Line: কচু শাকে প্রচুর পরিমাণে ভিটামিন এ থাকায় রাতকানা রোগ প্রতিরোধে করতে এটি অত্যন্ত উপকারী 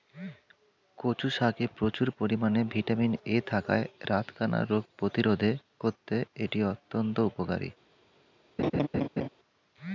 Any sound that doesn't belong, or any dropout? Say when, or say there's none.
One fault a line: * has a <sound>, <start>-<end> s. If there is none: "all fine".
* has a laugh, 8.6-9.3 s